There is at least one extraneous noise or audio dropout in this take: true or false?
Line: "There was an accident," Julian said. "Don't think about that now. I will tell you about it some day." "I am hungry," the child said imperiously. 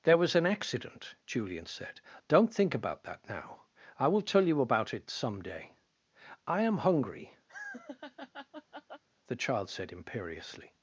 true